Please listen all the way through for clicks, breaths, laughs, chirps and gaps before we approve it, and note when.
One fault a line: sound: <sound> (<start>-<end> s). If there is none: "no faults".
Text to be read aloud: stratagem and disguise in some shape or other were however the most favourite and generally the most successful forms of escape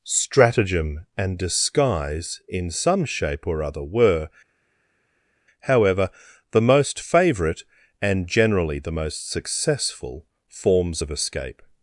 no faults